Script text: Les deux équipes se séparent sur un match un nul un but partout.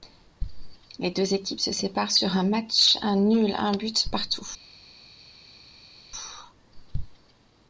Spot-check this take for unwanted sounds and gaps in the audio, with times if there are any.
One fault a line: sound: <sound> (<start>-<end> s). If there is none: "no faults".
no faults